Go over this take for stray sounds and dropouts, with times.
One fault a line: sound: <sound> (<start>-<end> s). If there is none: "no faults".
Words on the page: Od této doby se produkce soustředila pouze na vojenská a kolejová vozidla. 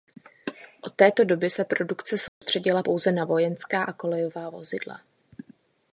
sound: dropout (2.3-2.4 s)